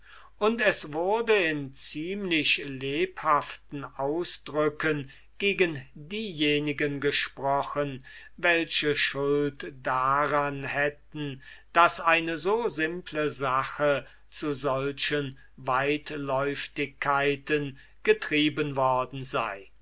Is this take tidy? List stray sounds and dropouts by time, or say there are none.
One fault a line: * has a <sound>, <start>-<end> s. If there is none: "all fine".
all fine